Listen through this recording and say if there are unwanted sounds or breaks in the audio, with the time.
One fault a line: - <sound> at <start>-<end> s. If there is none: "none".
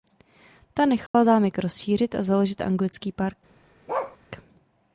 - dropout at 1.1-1.1 s
- bark at 3.9-4.2 s